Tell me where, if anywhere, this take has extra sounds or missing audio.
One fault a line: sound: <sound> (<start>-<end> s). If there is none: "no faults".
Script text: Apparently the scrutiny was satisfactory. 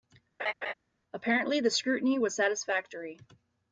sound: laugh (0.4-0.7 s)